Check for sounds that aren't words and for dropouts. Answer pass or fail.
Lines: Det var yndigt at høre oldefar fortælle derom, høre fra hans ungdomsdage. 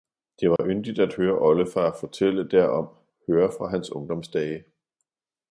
fail